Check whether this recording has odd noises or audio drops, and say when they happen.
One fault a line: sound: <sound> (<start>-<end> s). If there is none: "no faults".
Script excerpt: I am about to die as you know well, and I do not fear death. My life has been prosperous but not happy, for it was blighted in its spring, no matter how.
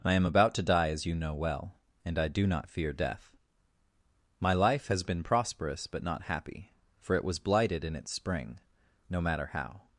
no faults